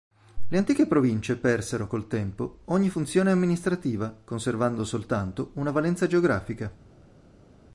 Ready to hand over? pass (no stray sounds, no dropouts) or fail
pass